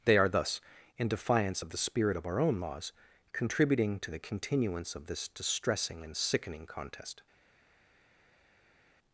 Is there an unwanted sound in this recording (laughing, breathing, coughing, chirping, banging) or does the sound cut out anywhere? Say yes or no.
no